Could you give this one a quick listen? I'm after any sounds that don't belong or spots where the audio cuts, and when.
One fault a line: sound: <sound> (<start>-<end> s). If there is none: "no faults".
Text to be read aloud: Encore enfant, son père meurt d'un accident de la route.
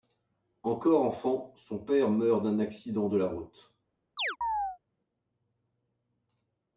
sound: chirp (4.2-4.8 s)